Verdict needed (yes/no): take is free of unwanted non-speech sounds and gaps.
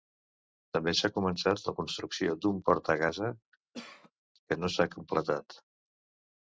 no